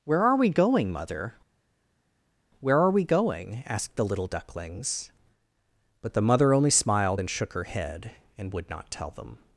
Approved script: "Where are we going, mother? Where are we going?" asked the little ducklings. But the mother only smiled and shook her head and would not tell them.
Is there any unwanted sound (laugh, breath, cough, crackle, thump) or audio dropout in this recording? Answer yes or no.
no